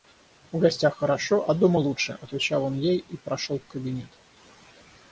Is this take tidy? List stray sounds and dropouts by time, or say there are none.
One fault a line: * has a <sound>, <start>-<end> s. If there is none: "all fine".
all fine